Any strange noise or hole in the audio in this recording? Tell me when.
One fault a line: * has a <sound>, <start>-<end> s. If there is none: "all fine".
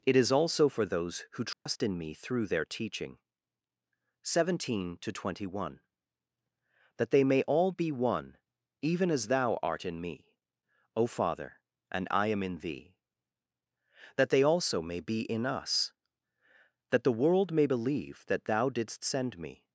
* has a dropout, 1.5-1.7 s